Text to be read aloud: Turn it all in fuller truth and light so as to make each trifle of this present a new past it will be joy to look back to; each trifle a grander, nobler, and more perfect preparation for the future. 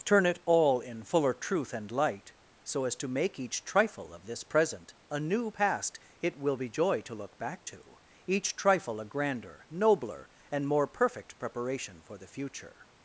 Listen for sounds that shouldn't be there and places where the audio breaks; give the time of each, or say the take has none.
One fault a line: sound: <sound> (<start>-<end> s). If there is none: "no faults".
no faults